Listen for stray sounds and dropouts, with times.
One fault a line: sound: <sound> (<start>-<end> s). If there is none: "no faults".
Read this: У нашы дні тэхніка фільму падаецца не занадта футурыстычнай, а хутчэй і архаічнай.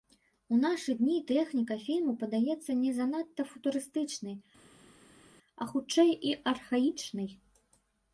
no faults